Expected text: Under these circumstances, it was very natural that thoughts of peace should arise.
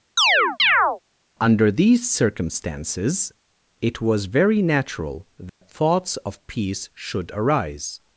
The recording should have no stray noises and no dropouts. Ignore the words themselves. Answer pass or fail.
fail